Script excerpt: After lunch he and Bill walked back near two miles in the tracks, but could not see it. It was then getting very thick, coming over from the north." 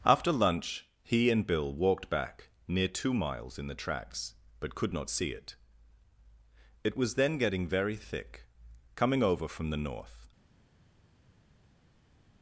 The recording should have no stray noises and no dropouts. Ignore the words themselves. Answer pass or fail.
pass